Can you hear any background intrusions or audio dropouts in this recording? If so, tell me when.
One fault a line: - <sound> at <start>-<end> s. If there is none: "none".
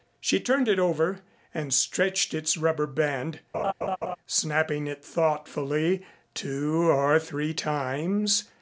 - laugh at 3.5-4.2 s